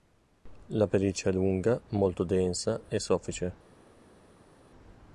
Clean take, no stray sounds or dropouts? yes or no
yes